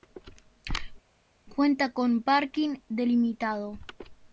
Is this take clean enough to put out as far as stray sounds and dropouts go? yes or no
yes